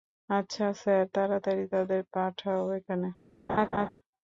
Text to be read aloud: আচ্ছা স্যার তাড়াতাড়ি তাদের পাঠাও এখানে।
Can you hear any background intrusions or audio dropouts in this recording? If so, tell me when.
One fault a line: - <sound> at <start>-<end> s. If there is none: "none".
- laugh at 3.5-3.9 s